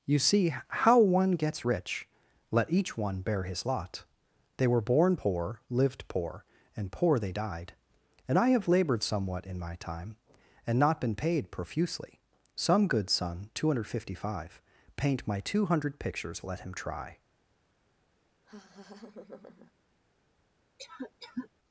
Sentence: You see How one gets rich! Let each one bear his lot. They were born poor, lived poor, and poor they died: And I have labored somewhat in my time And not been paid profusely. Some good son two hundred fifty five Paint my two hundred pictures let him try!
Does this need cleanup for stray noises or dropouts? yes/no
yes